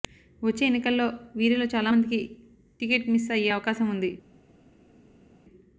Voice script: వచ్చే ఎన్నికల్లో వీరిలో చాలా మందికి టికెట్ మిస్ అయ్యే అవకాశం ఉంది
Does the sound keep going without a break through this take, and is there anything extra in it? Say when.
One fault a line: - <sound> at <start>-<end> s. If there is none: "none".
none